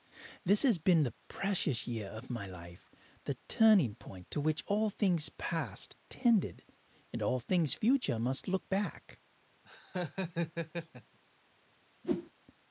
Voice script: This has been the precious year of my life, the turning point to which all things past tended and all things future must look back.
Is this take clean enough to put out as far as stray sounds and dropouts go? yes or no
no